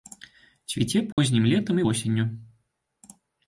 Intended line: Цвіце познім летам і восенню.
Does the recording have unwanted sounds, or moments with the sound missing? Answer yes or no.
yes